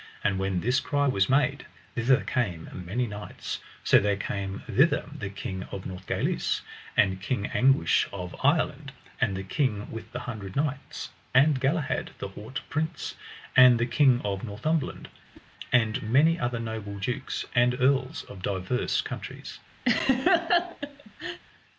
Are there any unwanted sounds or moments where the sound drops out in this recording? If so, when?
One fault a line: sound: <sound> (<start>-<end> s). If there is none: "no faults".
sound: whoosh (15.3-15.5 s)
sound: laugh (19.9-21.4 s)